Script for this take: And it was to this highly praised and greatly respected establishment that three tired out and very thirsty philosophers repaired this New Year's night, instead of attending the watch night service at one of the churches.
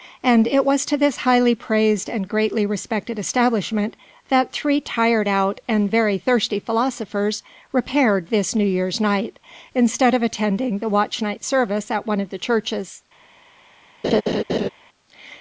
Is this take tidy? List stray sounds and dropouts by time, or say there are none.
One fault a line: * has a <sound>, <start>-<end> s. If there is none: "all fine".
* has a laugh, 14.0-14.7 s